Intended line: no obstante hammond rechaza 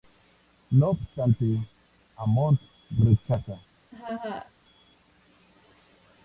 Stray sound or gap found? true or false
true